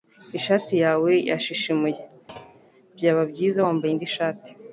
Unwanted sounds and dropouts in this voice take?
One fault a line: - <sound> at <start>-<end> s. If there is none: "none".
- thud at 2.3-2.7 s